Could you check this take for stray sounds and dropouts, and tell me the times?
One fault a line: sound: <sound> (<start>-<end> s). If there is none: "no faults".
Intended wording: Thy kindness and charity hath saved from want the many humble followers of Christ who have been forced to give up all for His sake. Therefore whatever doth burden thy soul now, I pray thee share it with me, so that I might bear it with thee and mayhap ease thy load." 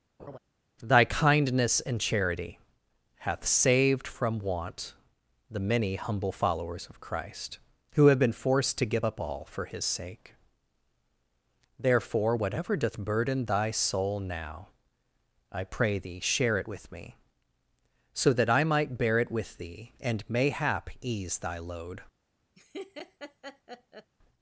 sound: laugh (0.2-0.4 s)
sound: laugh (22.6-24.1 s)